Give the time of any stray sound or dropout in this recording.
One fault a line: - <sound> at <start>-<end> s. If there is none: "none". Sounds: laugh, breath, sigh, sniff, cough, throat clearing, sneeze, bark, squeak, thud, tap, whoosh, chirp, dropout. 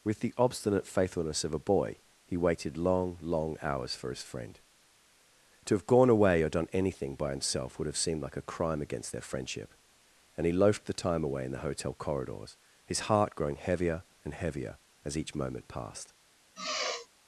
- sigh at 16.5-17.1 s